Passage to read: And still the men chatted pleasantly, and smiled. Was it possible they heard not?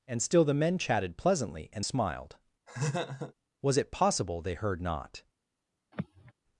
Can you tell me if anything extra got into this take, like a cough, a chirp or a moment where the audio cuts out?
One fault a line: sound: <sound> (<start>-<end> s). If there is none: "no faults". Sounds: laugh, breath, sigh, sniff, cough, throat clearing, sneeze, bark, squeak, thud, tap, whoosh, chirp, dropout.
sound: laugh (2.7-3.3 s)
sound: sigh (5.9-6.3 s)